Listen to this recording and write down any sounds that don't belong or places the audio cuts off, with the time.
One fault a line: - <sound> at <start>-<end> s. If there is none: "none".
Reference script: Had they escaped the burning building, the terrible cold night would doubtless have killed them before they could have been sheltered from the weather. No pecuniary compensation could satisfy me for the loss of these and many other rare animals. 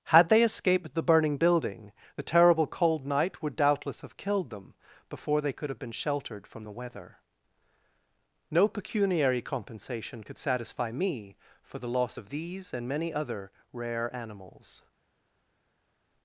none